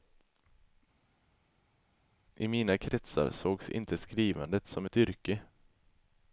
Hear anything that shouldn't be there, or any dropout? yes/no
no